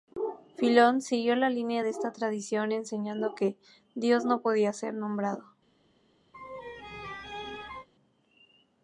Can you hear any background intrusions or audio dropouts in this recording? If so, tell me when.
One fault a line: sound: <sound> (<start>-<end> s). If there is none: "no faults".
sound: laugh (6.3-7.9 s)